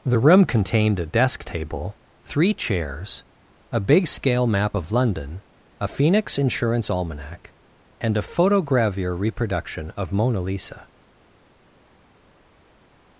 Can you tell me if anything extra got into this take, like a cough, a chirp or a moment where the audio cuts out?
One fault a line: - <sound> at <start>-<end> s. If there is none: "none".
none